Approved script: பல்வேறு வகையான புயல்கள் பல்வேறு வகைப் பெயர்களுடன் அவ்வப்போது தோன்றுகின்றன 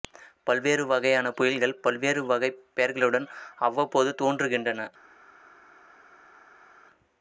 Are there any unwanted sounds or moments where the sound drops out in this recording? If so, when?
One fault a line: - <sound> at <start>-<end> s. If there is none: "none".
none